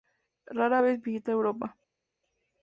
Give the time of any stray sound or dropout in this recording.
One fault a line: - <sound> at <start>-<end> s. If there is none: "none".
none